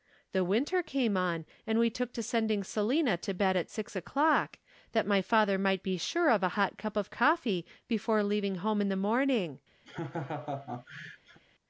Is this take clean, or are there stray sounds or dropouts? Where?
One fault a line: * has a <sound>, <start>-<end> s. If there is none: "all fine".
* has a laugh, 9.8-11.4 s